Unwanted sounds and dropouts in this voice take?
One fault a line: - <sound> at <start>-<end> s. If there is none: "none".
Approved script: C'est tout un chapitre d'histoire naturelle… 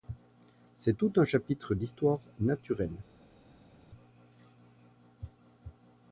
none